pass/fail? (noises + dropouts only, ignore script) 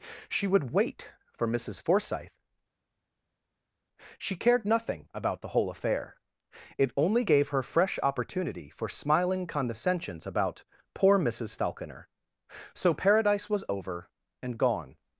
pass